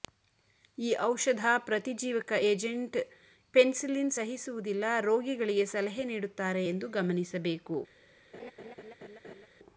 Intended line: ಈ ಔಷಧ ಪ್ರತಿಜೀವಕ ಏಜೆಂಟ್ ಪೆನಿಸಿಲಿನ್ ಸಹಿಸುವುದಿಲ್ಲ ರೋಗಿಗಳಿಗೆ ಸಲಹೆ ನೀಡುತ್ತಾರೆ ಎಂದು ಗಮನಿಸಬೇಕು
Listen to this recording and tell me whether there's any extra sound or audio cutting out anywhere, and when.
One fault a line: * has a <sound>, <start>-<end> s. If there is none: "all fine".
* has a laugh, 8.3-9.5 s